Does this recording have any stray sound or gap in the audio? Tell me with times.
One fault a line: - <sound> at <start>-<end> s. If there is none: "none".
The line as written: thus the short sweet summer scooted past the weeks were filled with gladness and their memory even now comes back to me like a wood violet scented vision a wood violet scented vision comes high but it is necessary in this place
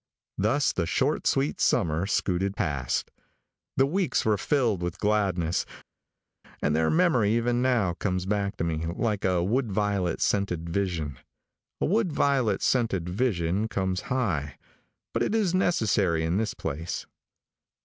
none